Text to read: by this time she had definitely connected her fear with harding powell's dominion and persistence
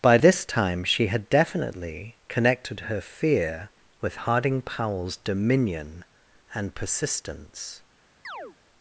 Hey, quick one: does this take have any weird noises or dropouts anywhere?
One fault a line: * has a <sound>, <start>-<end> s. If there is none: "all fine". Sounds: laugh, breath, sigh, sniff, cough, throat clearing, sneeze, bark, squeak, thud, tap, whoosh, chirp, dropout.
* has a chirp, 8.2-8.6 s